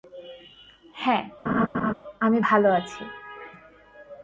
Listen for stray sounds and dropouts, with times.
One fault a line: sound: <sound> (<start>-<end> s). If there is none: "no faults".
sound: laugh (1.5-1.9 s)